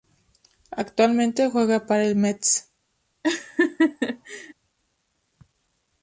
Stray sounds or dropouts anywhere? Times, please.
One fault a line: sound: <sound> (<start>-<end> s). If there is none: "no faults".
sound: laugh (3.2-4.5 s)